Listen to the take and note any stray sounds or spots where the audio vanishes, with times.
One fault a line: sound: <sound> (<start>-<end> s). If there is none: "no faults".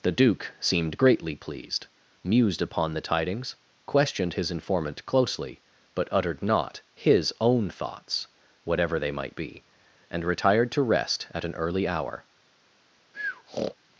sound: breath (13.1-13.7 s)